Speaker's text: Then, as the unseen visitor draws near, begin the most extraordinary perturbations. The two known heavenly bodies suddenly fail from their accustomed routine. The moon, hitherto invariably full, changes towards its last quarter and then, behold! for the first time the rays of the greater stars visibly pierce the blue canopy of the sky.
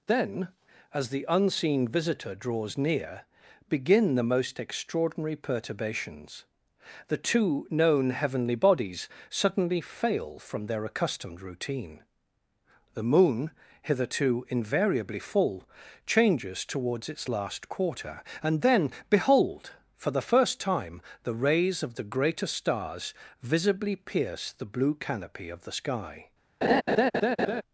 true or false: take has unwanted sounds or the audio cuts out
true